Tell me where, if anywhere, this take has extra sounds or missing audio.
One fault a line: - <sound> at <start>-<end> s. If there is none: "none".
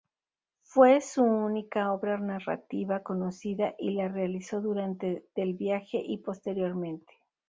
none